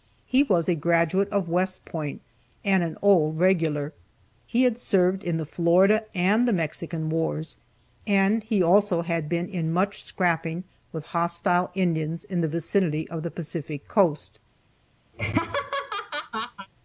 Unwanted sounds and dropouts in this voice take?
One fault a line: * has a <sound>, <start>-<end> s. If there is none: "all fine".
* has a laugh, 15.1-16.7 s